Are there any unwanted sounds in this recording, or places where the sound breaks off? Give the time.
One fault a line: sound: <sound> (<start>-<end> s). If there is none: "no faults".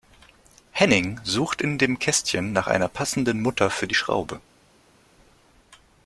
no faults